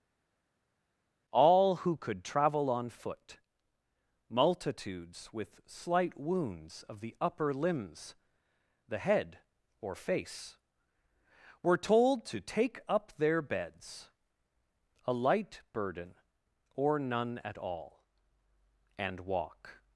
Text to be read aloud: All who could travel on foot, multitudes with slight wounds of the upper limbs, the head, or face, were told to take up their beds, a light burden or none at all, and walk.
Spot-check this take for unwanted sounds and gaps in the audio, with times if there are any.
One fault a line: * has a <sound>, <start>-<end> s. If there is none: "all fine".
all fine